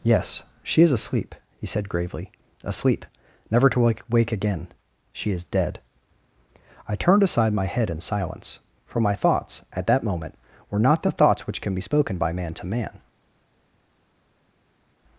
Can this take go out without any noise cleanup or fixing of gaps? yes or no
yes